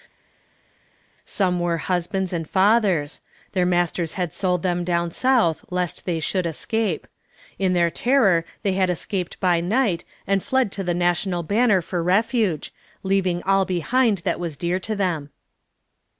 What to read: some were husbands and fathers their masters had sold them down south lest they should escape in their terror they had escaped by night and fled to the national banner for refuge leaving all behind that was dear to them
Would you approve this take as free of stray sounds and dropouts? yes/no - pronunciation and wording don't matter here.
yes